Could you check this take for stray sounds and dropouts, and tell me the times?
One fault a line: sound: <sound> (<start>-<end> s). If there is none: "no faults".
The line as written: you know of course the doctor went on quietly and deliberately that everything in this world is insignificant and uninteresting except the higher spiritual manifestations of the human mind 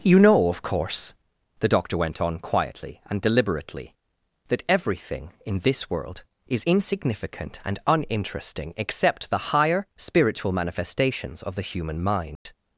sound: dropout (12.4-12.5 s)